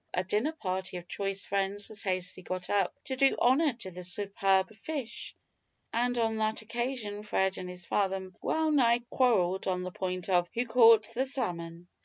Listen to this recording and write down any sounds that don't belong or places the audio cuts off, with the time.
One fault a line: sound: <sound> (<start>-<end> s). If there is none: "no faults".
no faults